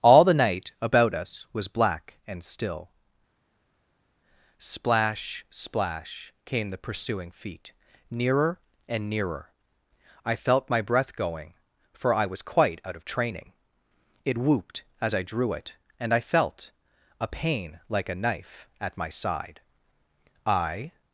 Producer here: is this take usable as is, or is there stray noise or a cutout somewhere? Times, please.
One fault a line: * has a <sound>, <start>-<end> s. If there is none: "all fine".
all fine